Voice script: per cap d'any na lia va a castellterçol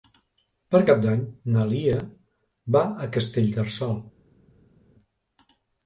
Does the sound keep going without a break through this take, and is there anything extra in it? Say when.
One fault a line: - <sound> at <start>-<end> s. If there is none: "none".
none